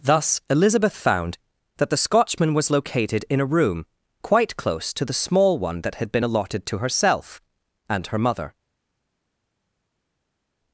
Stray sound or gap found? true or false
false